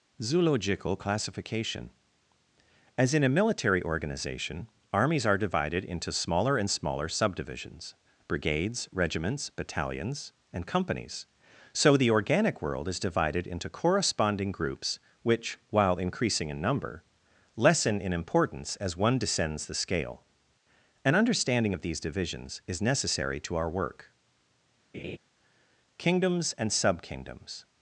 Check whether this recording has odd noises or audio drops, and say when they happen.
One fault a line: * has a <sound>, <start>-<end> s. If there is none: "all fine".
* has a laugh, 24.9-25.2 s